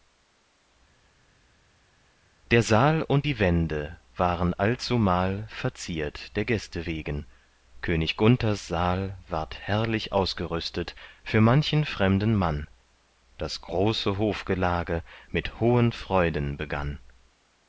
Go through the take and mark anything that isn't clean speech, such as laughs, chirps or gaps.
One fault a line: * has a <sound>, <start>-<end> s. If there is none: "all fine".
all fine